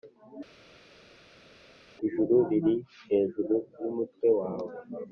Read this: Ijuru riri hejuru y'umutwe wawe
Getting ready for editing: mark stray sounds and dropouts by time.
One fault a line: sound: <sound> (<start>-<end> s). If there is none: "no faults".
no faults